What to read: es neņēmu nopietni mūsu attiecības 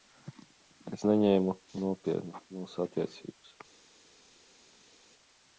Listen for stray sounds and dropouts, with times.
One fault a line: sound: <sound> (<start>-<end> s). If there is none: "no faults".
no faults